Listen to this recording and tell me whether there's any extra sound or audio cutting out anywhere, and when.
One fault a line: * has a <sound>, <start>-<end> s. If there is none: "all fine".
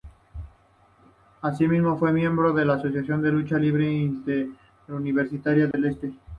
* has a dropout, 5.7-5.7 s